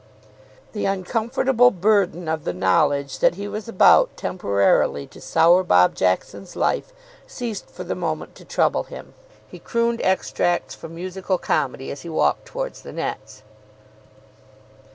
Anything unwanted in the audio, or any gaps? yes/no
no